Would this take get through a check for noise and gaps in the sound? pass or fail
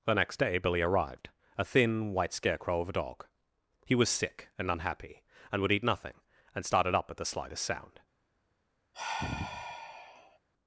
fail